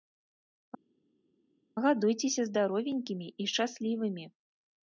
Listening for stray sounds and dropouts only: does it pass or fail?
pass